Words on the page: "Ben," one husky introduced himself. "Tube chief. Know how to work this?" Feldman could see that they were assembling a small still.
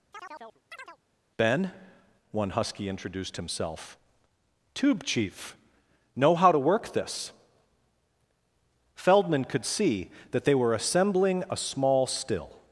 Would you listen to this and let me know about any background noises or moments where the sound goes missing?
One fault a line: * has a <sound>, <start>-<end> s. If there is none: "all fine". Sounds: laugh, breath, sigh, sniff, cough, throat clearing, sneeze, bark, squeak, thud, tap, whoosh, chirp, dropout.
* has a chirp, 0.1-1.0 s